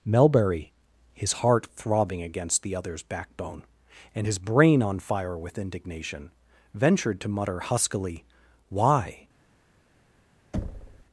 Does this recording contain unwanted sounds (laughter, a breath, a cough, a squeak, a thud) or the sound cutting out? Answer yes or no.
yes